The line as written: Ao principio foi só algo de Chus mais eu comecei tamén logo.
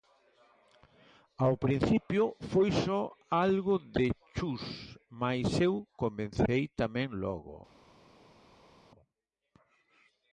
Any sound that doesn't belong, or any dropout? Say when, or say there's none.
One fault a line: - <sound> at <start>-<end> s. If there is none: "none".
none